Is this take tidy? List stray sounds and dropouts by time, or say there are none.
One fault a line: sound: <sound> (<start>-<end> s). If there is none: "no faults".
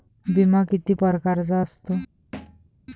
sound: thud (2.3-2.7 s)